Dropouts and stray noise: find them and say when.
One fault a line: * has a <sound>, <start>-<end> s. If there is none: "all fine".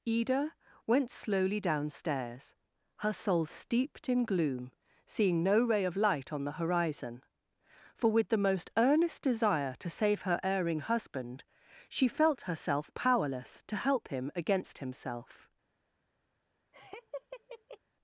* has a laugh, 16.7-17.8 s